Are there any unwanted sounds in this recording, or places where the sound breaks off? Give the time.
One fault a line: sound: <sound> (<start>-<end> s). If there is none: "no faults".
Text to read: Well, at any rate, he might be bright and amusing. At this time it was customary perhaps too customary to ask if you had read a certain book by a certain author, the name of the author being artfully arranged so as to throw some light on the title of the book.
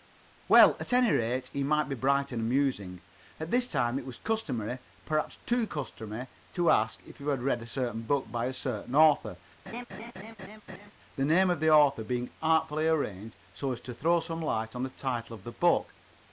sound: laugh (9.7-10.9 s)